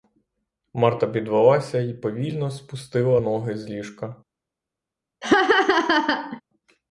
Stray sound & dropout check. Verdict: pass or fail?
fail